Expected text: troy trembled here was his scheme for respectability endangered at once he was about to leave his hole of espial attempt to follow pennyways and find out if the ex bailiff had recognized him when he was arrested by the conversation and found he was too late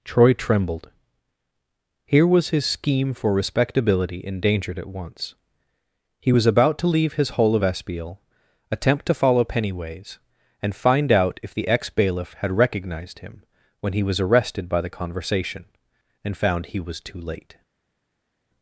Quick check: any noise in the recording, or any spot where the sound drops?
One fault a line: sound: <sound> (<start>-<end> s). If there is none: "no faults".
no faults